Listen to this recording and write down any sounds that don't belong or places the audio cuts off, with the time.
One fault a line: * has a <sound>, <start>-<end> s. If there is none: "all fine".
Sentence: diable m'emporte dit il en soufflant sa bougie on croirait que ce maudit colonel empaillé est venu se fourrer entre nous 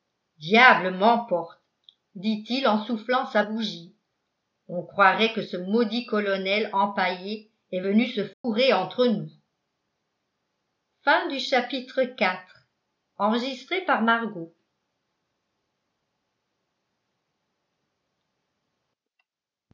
* has a dropout, 8.3-8.4 s